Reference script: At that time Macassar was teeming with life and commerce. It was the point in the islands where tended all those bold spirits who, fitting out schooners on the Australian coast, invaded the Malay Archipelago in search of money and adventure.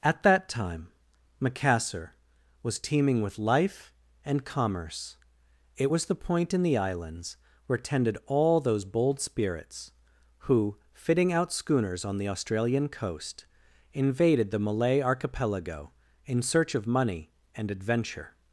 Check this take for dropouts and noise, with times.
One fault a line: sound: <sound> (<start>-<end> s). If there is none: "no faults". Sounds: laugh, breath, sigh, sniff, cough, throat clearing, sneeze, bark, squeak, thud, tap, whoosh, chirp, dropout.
no faults